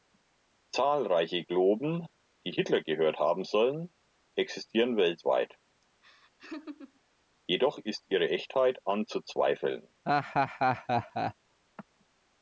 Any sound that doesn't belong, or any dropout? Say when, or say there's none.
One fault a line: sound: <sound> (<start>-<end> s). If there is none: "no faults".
sound: laugh (6.0-7.0 s)
sound: laugh (10.1-11.3 s)